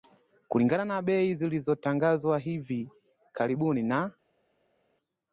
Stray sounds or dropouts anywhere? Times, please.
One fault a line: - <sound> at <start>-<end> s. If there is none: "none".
none